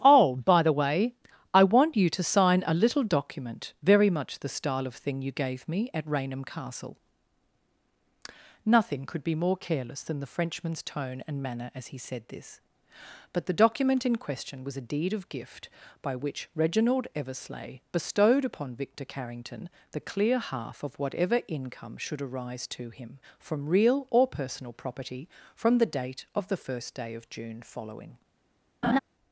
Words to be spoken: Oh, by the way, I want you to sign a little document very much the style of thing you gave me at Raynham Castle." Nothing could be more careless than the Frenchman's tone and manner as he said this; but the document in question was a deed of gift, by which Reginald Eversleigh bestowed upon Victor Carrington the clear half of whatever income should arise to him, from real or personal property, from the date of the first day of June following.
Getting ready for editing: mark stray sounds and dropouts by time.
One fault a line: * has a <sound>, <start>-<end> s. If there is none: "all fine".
* has a laugh, 28.8-29.0 s